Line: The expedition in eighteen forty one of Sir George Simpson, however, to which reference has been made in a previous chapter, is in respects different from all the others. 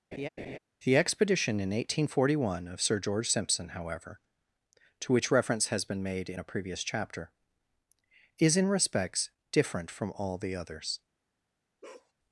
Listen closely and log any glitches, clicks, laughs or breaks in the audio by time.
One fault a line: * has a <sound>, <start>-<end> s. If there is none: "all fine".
* has a laugh, 0.1-0.6 s
* has a bark, 11.8-12.1 s